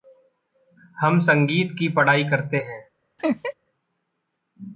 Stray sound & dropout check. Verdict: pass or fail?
fail